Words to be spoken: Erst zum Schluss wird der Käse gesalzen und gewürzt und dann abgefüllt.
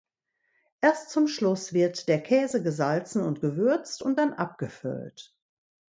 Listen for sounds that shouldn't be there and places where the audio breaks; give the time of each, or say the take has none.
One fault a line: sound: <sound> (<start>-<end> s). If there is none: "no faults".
no faults